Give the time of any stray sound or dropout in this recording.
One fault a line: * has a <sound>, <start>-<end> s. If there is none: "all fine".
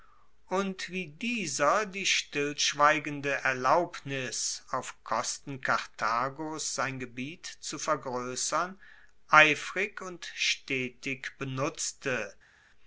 all fine